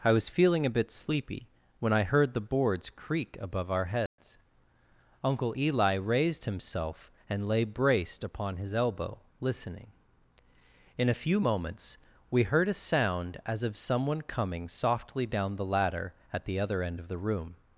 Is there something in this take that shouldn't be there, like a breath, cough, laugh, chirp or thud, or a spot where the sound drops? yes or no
yes